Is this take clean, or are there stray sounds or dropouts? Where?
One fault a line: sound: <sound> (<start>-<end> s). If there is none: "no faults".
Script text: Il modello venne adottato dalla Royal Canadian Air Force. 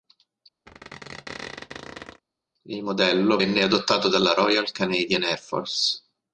sound: squeak (0.7-2.2 s)